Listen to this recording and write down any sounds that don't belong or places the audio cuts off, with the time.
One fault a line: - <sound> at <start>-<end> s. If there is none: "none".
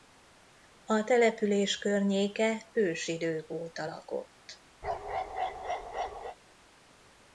- bark at 4.8-6.4 s